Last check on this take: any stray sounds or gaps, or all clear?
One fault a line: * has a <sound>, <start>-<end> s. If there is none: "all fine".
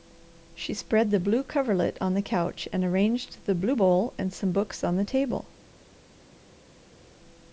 all fine